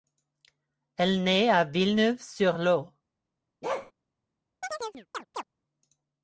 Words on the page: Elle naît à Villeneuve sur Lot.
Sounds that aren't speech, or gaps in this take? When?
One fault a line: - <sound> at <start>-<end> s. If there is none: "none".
- bark at 3.6-3.9 s
- chirp at 4.6-5.4 s